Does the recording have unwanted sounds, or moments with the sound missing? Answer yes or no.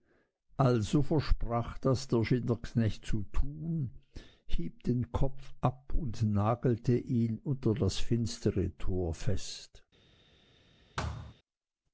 yes